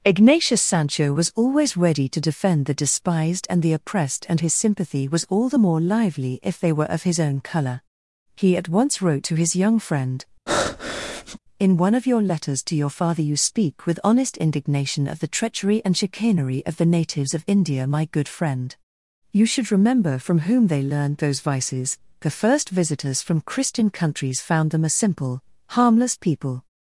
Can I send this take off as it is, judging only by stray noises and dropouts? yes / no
no